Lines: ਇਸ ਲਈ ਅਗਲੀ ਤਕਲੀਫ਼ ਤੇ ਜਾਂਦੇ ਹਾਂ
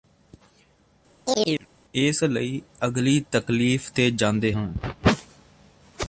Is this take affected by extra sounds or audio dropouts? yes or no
yes